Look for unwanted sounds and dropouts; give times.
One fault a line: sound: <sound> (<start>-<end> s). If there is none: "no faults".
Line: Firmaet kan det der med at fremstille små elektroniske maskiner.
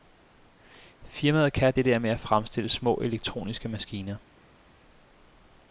no faults